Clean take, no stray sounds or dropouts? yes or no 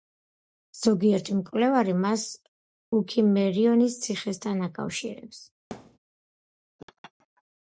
no